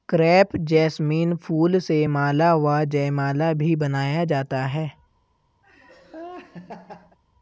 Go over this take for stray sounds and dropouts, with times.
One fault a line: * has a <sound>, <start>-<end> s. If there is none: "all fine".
* has a laugh, 5.6-7.2 s